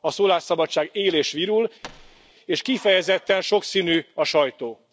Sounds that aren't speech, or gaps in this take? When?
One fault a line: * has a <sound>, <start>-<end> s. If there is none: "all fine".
* has a thud, 1.8-2.3 s